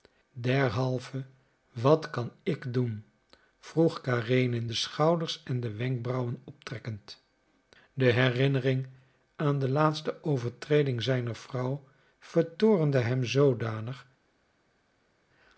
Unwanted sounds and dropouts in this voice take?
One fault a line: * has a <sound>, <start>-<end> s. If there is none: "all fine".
all fine